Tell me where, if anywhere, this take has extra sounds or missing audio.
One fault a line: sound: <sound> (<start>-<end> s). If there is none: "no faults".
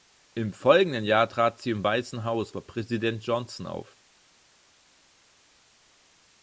no faults